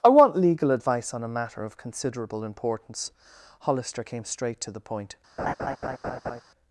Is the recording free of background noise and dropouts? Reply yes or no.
no